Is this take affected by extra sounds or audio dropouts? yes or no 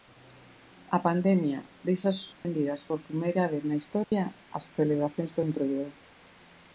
yes